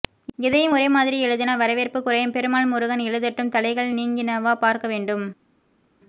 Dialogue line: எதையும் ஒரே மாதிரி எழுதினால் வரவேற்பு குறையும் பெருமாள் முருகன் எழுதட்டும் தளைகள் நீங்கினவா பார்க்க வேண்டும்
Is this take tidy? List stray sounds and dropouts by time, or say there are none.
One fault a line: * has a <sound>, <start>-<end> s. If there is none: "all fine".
all fine